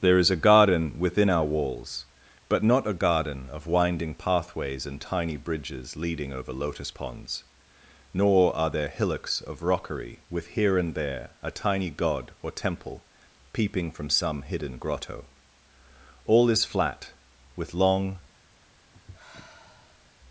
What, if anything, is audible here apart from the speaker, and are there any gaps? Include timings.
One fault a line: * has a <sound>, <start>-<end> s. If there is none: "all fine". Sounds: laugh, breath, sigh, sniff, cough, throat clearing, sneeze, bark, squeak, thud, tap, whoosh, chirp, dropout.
* has a sigh, 18.9-20.1 s